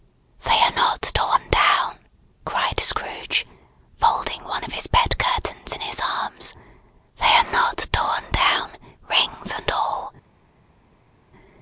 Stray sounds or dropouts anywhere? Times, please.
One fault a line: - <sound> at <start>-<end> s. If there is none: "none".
none